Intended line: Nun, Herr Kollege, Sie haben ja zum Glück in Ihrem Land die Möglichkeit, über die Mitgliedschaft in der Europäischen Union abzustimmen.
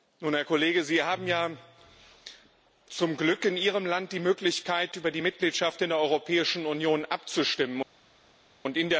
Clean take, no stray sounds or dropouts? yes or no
yes